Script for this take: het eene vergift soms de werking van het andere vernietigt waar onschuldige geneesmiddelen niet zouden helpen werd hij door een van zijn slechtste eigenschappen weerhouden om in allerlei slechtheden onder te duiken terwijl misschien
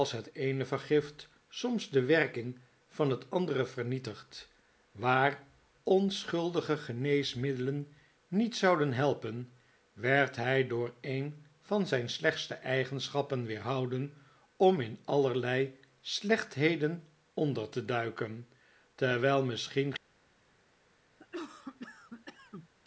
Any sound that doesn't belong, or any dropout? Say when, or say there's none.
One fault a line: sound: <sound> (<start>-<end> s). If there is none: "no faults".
sound: cough (21.2-22.7 s)